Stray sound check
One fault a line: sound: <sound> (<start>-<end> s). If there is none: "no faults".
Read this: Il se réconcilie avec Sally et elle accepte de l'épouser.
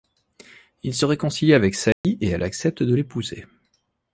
sound: dropout (1.9-2.0 s)